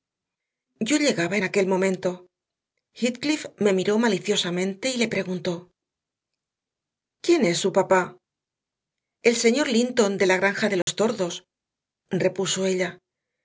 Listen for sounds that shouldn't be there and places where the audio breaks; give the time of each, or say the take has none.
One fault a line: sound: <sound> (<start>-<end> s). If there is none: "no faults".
sound: dropout (10.8-10.9 s)